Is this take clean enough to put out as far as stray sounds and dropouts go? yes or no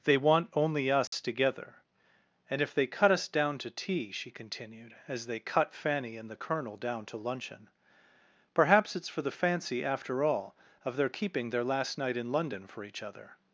no